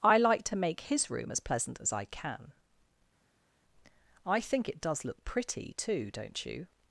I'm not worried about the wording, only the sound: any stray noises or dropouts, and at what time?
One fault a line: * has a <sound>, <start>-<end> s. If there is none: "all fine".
all fine